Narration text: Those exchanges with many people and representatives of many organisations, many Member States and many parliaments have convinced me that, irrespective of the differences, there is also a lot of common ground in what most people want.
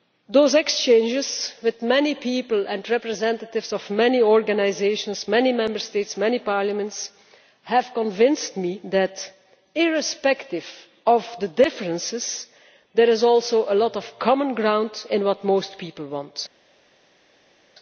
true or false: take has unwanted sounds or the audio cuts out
false